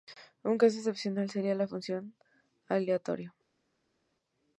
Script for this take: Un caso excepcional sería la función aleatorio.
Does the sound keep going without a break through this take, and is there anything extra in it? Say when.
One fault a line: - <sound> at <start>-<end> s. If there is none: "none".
none